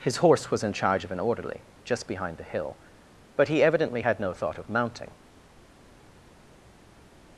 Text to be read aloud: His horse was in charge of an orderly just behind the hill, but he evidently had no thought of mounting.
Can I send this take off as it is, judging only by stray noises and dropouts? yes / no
yes